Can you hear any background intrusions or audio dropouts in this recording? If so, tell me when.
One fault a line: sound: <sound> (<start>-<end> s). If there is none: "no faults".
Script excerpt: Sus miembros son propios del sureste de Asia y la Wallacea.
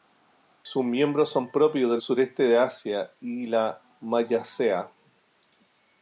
no faults